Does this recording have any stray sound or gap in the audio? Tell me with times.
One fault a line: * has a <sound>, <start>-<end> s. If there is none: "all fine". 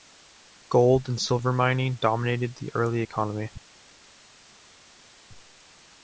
all fine